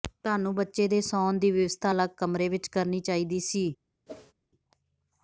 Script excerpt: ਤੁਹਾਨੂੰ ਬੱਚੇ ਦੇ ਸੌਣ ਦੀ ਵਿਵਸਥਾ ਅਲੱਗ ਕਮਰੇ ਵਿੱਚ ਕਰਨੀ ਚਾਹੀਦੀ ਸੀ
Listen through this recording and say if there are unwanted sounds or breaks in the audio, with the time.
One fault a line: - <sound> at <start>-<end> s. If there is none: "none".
- whoosh at 4.1-4.3 s